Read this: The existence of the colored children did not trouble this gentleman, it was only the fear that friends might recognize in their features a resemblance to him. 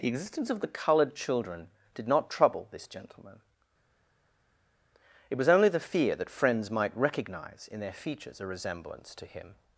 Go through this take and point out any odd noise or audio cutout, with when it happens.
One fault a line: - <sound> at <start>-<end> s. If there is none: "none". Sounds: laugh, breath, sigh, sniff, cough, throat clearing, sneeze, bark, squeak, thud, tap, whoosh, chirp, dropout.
none